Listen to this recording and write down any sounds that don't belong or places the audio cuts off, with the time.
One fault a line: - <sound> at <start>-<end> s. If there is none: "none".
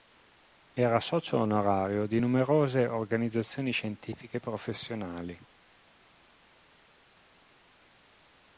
none